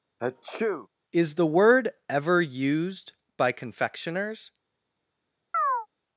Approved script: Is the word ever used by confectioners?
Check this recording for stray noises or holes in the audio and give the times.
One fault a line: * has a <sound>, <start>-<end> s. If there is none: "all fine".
* has a sneeze, 0.2-0.9 s
* has a chirp, 5.5-5.9 s